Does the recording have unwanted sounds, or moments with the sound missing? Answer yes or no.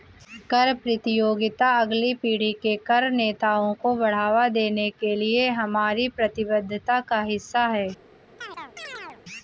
yes